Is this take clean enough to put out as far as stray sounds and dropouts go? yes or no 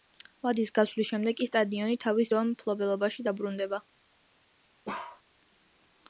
no